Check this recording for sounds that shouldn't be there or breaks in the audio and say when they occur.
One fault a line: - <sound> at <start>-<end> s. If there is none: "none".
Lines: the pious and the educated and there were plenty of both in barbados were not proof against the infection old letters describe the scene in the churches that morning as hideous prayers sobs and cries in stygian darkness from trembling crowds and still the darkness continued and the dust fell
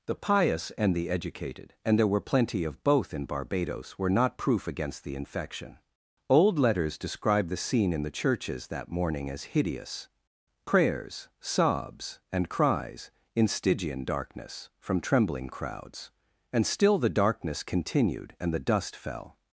none